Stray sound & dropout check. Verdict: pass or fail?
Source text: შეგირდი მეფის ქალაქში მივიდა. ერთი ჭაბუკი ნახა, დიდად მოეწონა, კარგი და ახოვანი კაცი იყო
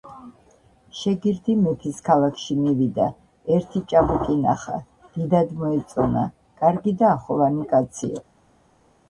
pass